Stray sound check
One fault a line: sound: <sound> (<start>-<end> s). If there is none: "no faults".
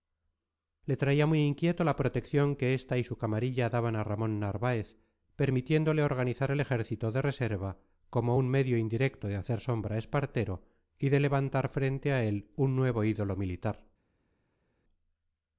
no faults